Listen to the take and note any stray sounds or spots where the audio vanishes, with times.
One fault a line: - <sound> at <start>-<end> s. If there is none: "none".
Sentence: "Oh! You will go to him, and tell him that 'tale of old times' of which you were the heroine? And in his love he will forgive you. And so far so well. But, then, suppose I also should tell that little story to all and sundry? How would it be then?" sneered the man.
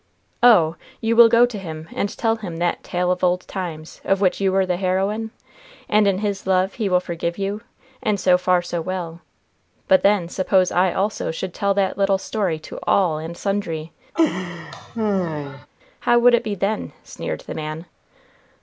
- laugh at 14.2-15.7 s